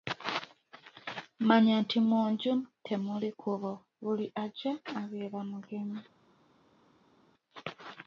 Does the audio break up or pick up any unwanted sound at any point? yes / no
no